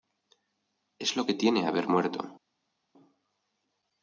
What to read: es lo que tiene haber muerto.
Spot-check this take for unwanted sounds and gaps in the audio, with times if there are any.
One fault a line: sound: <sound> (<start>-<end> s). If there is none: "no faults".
no faults